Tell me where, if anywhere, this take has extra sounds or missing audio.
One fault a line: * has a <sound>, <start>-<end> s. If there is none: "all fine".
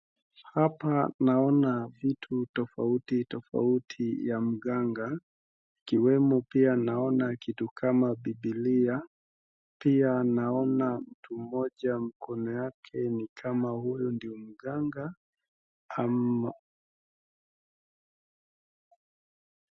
all fine